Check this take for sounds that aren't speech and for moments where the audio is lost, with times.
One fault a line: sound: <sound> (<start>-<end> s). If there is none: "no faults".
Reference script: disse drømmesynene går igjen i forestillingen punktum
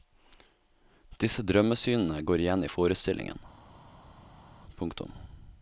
no faults